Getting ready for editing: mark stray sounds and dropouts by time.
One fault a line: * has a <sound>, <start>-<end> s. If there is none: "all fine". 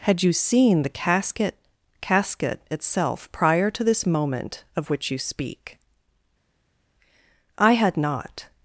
all fine